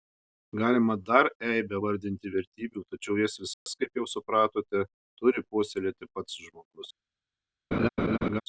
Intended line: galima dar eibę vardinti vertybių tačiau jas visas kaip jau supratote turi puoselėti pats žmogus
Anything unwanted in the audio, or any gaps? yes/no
yes